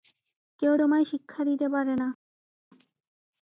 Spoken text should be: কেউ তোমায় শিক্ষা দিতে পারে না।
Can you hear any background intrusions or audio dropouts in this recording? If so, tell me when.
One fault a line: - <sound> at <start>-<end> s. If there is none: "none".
none